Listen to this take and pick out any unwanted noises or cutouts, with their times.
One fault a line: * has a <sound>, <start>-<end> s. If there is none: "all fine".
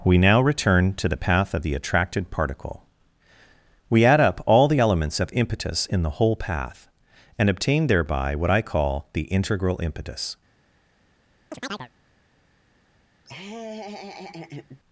* has a chirp, 11.5-11.9 s
* has a laugh, 13.2-14.8 s